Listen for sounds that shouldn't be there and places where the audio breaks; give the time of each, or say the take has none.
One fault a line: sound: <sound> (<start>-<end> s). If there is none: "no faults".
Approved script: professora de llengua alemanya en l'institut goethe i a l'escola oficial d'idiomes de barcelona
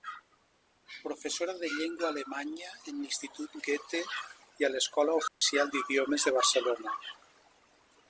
sound: dropout (5.3-5.4 s)